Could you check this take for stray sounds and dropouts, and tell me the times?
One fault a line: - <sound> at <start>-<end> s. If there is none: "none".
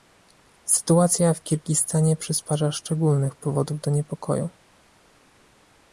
none